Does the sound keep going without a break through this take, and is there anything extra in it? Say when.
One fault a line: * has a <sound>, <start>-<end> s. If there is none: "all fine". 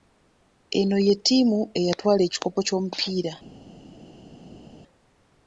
all fine